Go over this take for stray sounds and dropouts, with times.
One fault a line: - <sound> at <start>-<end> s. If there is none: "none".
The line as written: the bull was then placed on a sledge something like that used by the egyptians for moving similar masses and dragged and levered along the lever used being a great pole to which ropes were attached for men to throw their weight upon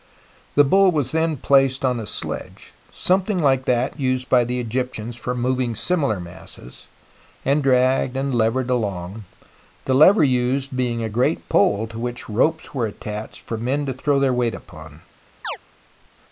- chirp at 15.4-15.6 s